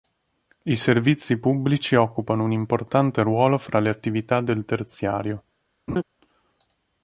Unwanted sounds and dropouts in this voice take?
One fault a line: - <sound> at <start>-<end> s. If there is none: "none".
- laugh at 5.9-6.0 s